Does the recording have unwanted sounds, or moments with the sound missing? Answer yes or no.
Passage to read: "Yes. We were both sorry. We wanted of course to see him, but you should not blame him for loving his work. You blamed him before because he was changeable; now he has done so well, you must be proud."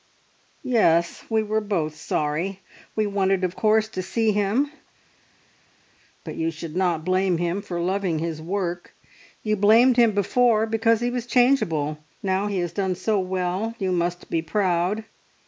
no